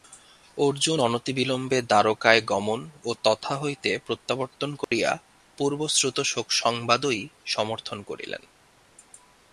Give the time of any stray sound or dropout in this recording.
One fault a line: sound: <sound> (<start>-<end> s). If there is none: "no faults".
sound: dropout (4.8-4.9 s)